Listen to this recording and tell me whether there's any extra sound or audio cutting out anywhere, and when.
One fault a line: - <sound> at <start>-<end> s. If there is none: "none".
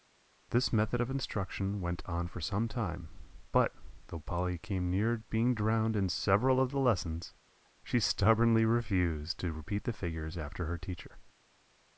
none